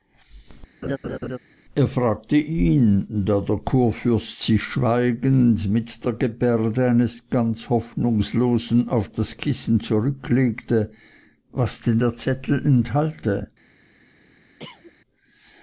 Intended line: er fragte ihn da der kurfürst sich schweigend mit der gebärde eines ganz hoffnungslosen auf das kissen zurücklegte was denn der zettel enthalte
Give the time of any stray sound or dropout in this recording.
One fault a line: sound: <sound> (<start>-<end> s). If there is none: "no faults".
sound: laugh (0.8-1.4 s)
sound: cough (14.6-14.9 s)